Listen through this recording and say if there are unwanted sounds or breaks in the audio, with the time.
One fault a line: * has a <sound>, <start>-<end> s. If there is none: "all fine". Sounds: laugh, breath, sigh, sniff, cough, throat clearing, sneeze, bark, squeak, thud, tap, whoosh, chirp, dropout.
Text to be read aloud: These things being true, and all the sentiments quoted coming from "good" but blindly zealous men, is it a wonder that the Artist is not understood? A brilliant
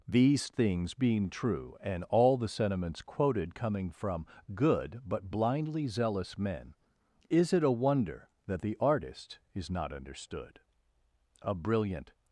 all fine